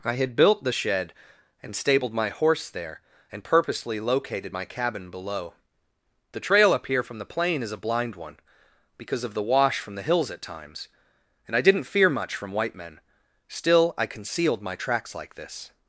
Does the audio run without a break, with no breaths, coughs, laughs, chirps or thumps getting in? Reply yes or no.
yes